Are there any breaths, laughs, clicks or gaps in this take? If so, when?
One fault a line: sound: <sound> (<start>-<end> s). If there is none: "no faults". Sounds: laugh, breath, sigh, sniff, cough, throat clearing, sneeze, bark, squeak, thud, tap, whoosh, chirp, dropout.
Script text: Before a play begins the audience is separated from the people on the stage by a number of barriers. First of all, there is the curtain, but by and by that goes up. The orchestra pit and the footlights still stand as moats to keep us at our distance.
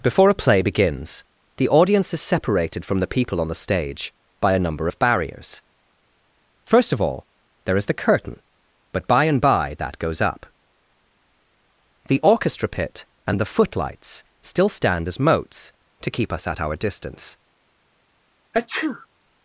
sound: sneeze (18.5-19.1 s)